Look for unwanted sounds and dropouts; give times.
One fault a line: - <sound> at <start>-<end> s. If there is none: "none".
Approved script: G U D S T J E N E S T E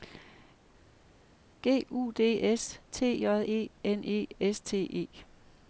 none